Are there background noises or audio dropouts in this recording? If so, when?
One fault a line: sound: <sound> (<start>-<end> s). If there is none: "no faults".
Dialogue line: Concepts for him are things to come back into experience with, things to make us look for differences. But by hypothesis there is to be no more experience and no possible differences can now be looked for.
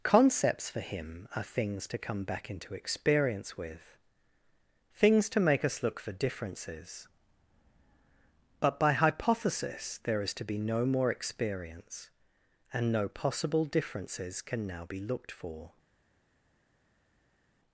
no faults